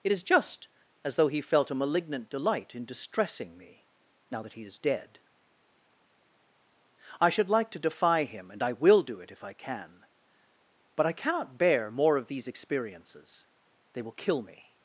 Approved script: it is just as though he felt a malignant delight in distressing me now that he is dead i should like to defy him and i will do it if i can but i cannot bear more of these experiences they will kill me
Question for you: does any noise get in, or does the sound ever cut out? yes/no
no